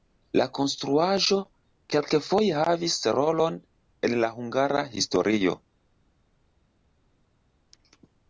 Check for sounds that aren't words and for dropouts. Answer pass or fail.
pass